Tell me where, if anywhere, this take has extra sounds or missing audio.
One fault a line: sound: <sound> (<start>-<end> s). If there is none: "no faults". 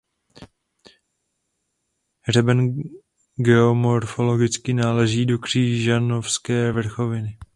no faults